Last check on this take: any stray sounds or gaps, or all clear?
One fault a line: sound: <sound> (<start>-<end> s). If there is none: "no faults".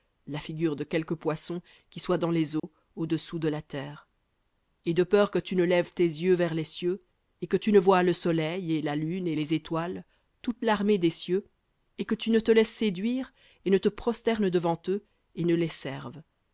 sound: dropout (2.6-2.6 s)